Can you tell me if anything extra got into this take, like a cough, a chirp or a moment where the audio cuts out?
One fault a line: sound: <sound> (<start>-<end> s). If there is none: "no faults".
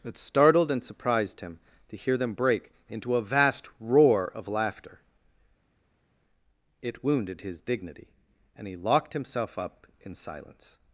no faults